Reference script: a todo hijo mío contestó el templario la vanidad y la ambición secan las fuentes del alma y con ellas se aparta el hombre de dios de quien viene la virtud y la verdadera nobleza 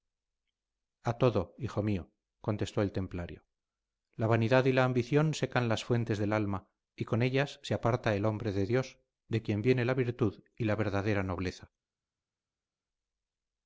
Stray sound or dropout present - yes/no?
no